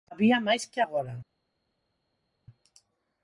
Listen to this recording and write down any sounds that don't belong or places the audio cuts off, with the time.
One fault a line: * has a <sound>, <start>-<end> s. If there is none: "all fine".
all fine